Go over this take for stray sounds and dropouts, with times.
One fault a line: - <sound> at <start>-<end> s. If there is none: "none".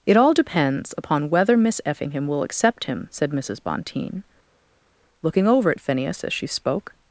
none